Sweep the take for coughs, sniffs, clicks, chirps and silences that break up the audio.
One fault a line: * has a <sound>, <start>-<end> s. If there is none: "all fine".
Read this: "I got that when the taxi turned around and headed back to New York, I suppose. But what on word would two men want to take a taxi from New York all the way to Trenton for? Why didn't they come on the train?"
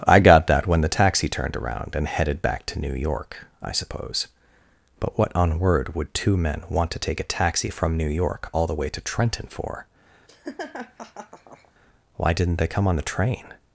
* has a laugh, 10.3-11.7 s